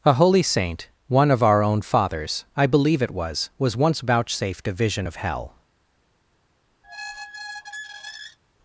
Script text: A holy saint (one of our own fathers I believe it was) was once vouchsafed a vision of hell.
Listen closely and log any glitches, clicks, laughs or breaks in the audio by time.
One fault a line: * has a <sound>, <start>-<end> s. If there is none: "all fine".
* has a squeak, 6.8-8.4 s